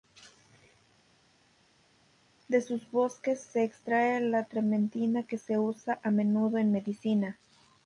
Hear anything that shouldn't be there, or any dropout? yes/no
no